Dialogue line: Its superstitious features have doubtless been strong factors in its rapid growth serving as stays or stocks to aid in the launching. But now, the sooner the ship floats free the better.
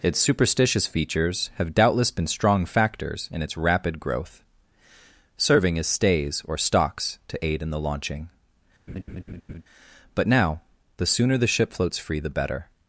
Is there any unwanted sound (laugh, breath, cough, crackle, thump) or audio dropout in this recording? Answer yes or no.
yes